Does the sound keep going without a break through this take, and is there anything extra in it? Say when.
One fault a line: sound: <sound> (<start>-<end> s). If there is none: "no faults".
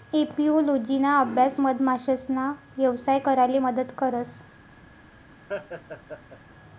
sound: laugh (5.5-6.4 s)